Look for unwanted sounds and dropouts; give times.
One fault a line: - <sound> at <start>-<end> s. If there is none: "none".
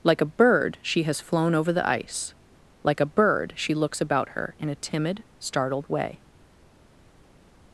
none